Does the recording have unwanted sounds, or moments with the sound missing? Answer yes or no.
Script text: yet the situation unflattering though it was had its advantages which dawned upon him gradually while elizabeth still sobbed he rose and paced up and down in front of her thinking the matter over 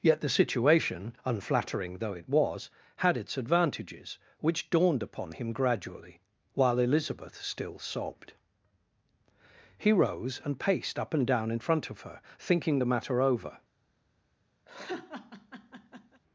yes